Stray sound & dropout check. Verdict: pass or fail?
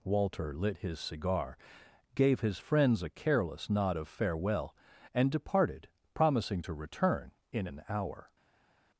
pass